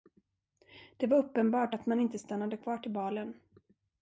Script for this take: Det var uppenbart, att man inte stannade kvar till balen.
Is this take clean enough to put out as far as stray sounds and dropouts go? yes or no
yes